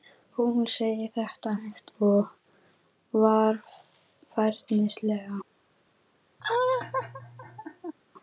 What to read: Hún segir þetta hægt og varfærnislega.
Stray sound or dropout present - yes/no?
yes